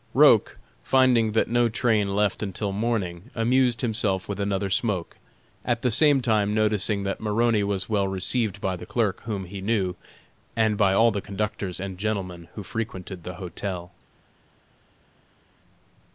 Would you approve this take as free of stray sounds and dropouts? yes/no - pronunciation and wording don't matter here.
yes